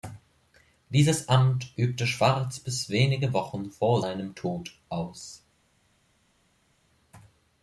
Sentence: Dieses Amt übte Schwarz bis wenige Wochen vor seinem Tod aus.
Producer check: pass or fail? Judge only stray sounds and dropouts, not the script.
pass